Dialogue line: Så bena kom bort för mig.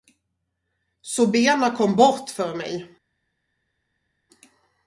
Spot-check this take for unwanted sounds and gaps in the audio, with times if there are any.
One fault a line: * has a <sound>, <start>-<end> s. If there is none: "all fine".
all fine